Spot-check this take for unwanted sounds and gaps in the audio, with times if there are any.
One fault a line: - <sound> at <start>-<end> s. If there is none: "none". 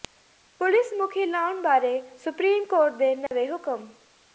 - dropout at 3.3-3.3 s